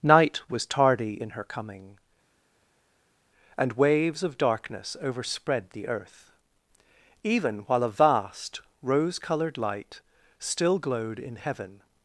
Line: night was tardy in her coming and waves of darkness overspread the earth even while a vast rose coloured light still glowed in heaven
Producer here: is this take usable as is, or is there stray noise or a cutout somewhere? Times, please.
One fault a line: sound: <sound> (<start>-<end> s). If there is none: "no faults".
no faults